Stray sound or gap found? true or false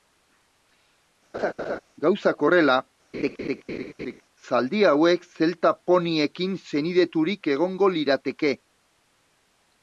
true